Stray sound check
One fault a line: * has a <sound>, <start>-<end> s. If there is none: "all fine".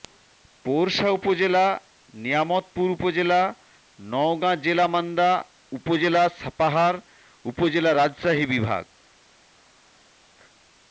all fine